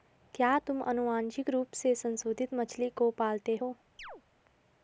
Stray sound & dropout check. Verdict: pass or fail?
fail